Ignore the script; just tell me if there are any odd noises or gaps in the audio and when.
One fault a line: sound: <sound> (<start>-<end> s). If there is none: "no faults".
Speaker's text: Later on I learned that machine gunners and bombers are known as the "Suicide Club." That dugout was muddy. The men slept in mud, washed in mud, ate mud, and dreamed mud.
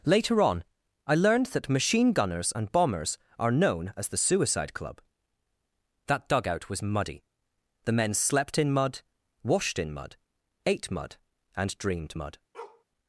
sound: bark (12.5-12.8 s)